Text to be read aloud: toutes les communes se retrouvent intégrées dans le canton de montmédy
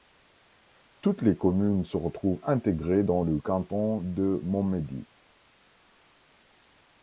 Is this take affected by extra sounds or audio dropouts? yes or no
no